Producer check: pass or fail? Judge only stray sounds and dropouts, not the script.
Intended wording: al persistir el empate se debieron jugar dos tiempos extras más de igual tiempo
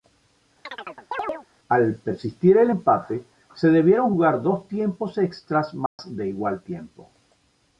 fail